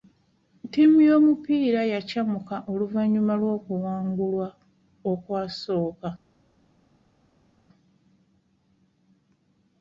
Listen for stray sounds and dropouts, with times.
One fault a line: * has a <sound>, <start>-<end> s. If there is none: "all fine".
all fine